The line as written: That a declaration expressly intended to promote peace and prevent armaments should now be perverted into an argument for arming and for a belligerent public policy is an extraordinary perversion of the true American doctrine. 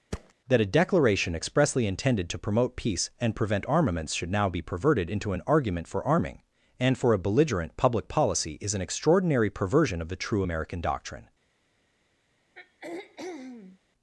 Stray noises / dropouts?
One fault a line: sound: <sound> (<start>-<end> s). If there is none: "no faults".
sound: thud (0.1-0.3 s)
sound: throat clearing (12.6-13.8 s)